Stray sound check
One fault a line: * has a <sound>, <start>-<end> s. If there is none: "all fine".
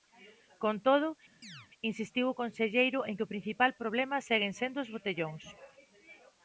* has a chirp, 1.4-1.7 s